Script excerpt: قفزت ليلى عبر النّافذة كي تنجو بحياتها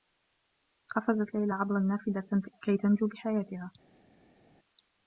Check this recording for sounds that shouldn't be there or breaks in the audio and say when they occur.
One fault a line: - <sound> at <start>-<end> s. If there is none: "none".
none